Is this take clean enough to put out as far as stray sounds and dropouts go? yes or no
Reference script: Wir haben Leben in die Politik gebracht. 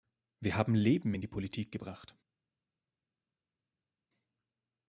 yes